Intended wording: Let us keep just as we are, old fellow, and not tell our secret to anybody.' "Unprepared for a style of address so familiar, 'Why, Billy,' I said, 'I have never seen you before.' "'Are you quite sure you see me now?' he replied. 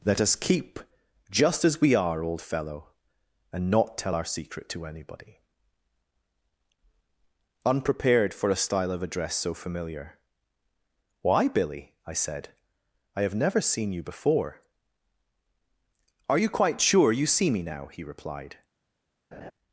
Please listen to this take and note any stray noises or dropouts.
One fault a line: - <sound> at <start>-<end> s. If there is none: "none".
- laugh at 19.3-19.5 s